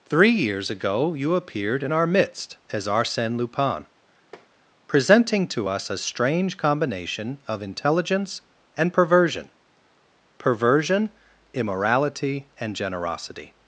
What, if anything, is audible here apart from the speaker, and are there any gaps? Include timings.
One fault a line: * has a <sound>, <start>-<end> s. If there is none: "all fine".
* has a tap, 4.3-4.5 s